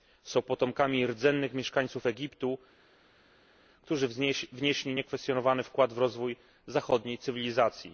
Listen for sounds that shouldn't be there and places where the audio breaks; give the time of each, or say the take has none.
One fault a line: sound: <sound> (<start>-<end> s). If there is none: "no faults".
no faults